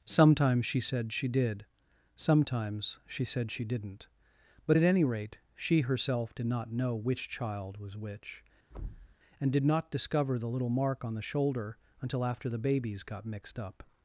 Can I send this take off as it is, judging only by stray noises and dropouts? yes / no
no